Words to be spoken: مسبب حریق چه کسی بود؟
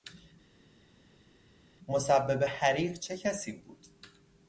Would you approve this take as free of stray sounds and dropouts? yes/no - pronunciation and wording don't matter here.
yes